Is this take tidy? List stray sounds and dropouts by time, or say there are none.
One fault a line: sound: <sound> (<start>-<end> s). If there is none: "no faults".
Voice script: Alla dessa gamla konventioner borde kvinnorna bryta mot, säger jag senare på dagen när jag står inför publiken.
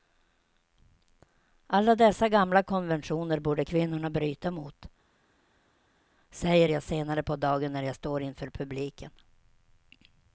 no faults